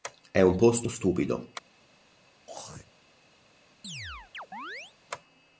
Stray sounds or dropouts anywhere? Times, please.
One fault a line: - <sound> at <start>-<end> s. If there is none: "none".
- throat clearing at 2.5-2.9 s
- chirp at 3.8-4.9 s